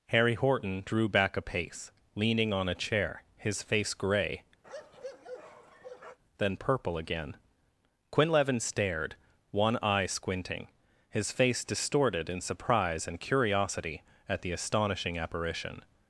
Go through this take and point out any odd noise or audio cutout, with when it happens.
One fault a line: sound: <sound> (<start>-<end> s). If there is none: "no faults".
sound: bark (4.6-6.2 s)